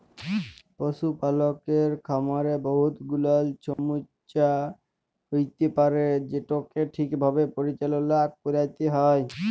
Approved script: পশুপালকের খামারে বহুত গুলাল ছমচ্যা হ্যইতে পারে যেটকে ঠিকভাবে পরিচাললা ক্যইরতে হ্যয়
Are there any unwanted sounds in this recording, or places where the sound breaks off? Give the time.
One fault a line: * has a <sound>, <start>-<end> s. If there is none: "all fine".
* has a dropout, 3.7-3.8 s